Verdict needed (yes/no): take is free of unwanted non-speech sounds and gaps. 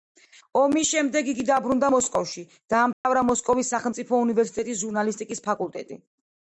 no